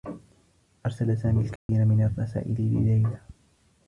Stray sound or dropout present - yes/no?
yes